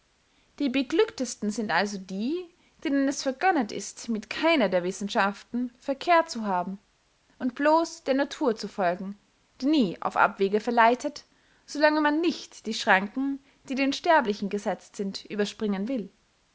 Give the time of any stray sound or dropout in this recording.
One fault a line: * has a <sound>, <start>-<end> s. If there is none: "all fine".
all fine